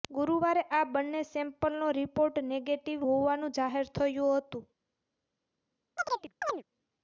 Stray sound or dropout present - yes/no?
yes